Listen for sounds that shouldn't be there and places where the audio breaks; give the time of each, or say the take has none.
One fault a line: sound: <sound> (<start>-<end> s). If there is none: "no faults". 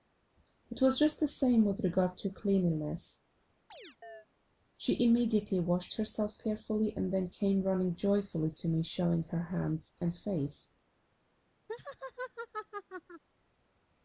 sound: chirp (3.7-4.3 s)
sound: laugh (11.7-13.2 s)